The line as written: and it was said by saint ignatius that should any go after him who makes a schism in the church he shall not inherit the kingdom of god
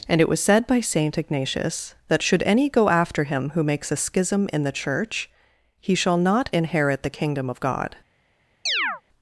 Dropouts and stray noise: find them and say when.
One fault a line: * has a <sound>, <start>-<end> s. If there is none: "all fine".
* has a chirp, 8.7-9.0 s